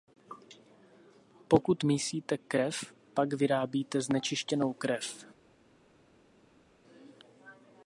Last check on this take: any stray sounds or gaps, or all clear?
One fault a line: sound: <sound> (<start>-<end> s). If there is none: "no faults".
no faults